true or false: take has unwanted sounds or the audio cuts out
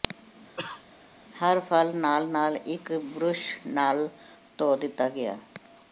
true